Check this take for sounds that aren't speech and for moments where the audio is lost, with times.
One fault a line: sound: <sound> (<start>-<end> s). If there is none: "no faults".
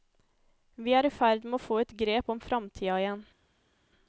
no faults